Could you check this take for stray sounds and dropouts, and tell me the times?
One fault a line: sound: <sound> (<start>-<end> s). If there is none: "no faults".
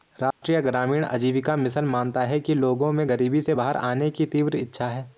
sound: dropout (0.3-0.4 s)